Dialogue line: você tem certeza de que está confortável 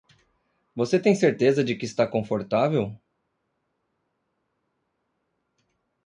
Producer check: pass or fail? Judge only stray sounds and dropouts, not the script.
pass